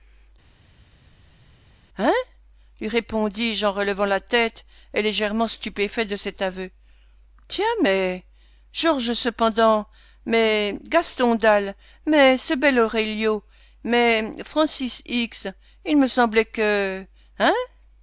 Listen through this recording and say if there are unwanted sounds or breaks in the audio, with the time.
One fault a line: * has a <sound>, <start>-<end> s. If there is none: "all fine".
all fine